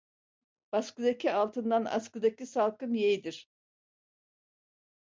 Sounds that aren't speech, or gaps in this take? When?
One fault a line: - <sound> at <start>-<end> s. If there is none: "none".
none